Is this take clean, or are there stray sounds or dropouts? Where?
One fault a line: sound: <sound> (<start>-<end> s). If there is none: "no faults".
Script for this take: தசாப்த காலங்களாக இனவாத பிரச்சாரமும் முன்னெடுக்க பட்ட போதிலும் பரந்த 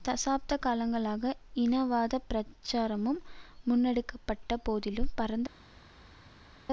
no faults